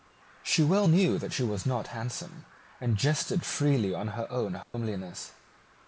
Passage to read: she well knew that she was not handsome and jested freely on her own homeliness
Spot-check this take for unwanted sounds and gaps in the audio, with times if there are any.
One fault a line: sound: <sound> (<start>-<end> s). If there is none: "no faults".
sound: dropout (4.6-4.7 s)